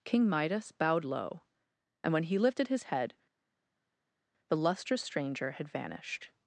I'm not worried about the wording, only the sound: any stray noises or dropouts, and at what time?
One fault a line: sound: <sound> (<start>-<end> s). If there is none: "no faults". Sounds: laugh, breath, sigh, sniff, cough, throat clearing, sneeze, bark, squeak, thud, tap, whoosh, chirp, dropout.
no faults